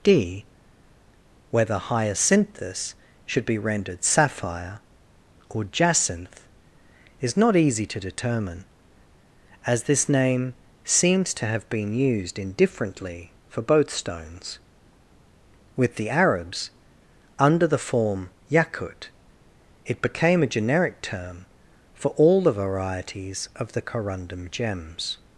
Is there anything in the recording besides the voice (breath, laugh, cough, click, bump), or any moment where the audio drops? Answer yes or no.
no